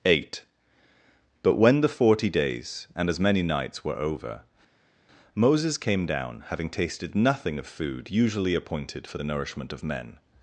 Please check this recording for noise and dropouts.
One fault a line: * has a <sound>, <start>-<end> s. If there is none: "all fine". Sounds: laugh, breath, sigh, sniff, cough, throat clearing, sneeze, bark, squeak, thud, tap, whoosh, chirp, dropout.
all fine